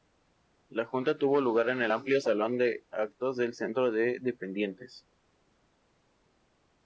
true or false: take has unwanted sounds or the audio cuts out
false